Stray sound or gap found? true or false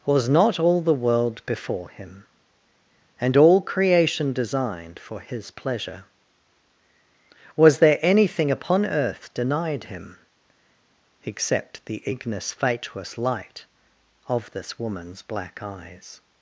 false